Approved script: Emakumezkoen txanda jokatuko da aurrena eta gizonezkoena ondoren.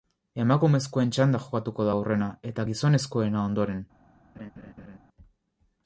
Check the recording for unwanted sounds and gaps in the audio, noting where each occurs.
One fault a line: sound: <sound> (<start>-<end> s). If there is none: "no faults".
sound: laugh (4.3-5.0 s)